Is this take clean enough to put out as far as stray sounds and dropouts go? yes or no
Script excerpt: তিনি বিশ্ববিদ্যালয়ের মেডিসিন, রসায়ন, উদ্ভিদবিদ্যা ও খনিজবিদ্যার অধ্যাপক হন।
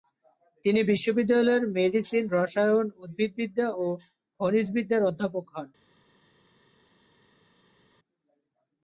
yes